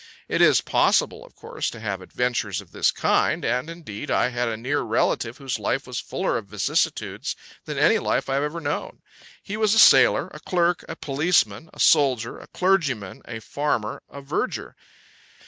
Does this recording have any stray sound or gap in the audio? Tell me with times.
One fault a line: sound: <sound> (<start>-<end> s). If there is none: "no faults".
no faults